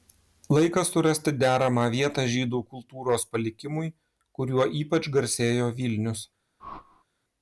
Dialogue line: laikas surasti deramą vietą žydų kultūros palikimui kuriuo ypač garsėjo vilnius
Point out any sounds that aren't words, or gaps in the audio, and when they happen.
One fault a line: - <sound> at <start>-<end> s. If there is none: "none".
- whoosh at 6.6-7.0 s